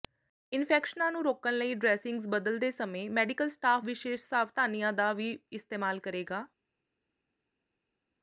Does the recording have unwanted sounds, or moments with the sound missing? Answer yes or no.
no